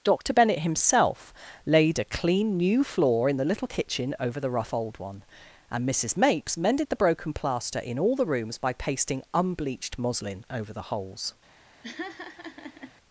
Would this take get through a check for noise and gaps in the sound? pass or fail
fail